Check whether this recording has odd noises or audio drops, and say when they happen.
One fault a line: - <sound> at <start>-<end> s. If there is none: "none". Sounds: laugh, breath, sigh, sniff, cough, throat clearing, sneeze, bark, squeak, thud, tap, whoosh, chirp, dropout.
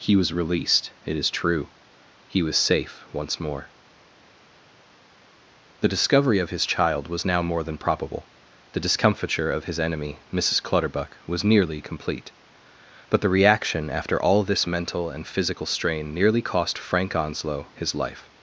none